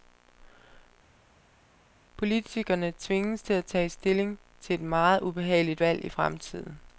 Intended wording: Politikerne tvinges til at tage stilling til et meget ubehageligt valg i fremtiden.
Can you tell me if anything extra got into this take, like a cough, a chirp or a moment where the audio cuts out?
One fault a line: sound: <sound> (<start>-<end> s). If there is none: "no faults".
no faults